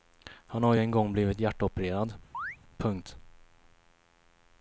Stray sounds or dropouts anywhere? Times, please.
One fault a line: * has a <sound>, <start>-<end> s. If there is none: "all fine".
* has a chirp, 2.3-2.6 s